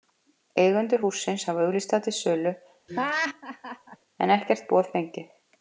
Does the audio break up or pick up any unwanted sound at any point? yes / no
yes